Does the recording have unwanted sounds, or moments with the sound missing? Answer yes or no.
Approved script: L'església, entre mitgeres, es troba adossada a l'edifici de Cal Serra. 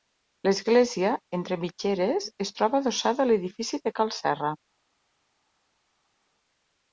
no